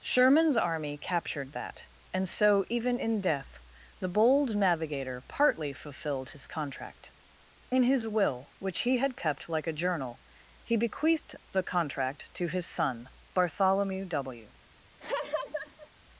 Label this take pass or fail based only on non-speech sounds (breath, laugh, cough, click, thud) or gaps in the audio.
fail